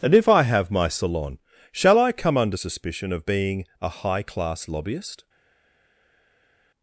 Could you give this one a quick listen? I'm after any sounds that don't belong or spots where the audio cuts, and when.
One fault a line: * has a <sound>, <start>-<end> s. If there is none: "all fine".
all fine